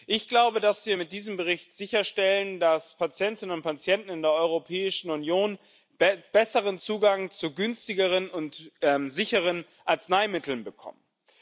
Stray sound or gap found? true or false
false